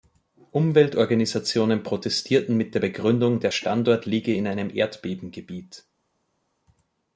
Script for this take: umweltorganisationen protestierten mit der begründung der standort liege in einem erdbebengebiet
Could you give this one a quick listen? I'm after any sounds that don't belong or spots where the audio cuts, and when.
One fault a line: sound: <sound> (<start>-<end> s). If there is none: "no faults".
no faults